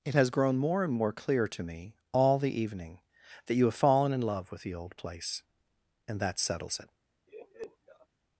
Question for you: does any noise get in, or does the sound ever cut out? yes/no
yes